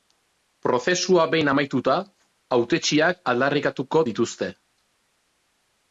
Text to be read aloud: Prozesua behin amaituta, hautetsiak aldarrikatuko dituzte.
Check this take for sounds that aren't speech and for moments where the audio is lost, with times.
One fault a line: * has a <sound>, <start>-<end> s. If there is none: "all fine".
all fine